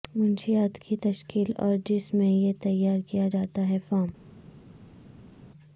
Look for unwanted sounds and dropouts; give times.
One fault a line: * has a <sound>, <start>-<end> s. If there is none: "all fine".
all fine